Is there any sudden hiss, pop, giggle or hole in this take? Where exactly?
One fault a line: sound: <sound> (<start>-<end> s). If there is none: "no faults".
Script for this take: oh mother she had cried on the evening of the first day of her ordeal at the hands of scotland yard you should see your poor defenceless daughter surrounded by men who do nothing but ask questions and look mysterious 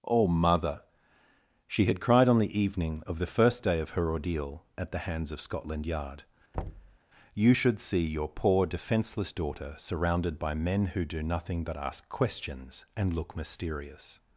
sound: thud (6.5-7.0 s)